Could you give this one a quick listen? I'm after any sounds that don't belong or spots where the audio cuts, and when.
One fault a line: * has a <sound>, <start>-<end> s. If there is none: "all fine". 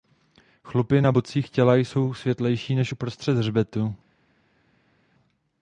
all fine